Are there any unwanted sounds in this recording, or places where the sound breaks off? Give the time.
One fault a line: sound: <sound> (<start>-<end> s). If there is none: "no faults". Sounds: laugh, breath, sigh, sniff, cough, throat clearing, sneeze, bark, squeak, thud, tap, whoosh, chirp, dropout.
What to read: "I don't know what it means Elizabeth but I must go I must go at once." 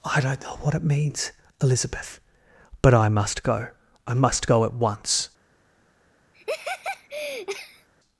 sound: laugh (6.3-7.9 s)